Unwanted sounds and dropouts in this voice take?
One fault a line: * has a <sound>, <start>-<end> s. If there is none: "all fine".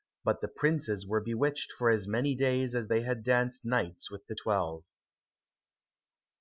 all fine